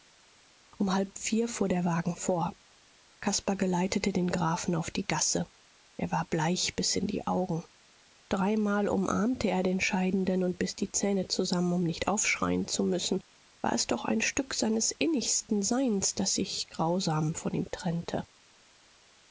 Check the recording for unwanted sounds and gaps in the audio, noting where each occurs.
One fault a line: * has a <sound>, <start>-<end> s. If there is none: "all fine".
all fine